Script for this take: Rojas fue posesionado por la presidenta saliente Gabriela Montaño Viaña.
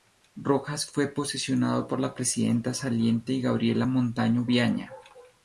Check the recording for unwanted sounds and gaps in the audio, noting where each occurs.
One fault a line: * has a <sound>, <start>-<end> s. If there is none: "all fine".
all fine